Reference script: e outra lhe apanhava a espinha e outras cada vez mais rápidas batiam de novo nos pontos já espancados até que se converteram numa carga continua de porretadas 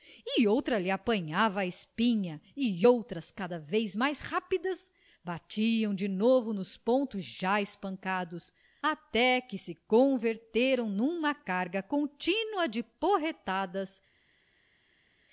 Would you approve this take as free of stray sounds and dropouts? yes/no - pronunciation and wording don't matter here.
yes